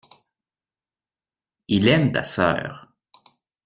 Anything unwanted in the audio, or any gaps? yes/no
no